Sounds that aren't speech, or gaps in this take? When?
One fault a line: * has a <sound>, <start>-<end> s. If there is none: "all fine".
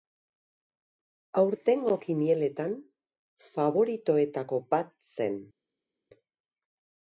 all fine